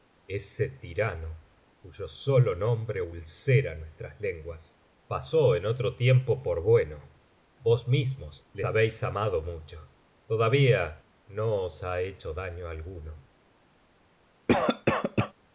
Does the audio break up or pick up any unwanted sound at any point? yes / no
yes